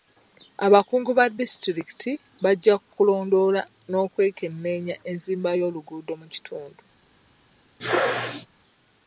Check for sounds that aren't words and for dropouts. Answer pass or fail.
fail